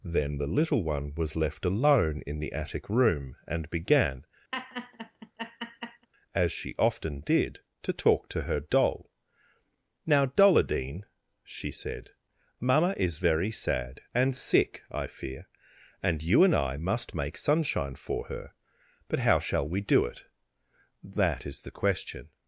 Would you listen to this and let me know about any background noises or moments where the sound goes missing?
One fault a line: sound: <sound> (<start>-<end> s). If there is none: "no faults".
sound: laugh (4.5-6.1 s)